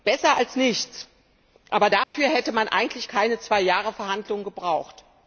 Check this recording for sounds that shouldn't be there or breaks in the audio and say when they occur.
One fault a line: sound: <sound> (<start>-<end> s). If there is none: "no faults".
sound: dropout (2.0-2.1 s)